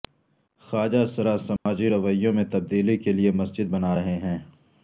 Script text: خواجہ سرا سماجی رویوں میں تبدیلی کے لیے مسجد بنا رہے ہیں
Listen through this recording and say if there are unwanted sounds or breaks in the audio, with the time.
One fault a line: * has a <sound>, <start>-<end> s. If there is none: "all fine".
* has a dropout, 1.6-1.7 s